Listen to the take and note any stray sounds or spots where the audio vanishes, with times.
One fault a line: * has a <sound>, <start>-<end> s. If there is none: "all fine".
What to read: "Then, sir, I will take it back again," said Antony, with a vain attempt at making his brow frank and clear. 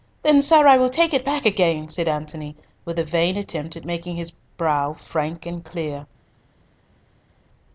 all fine